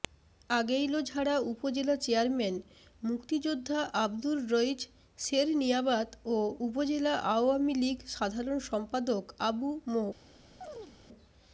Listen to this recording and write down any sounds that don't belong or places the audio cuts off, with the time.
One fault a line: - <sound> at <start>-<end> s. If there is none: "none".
- chirp at 10.6-11.0 s